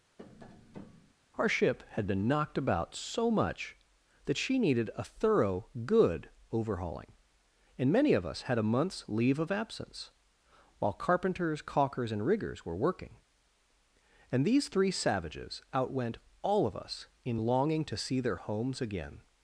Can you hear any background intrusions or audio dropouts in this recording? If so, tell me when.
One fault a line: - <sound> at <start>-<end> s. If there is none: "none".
- tap at 0.2-1.1 s